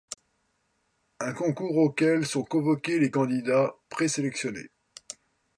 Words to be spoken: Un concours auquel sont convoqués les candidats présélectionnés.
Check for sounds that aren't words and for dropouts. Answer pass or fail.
pass